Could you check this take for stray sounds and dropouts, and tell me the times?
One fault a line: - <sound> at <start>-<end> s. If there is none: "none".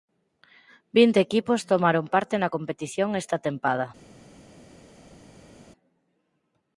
none